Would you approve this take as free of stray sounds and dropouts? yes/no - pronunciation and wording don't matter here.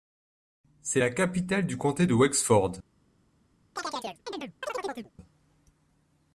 no